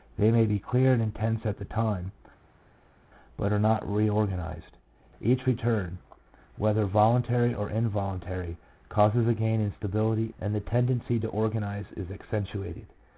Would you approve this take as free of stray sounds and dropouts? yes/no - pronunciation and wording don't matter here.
yes